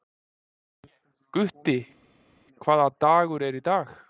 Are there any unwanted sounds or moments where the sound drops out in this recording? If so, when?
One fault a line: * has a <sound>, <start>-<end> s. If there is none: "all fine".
all fine